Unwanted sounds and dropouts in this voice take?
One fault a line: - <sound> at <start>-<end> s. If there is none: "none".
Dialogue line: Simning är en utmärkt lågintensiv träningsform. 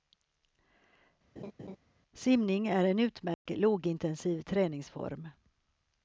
- laugh at 1.4-1.8 s
- dropout at 3.3-3.5 s